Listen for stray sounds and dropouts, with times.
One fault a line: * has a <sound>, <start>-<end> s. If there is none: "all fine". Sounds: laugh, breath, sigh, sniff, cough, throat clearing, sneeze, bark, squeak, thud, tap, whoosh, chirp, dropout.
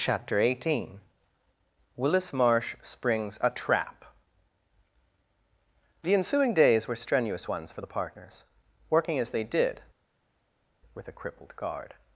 all fine